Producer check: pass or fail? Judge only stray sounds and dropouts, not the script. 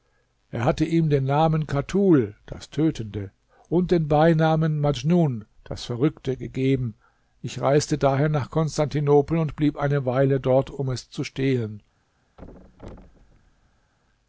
fail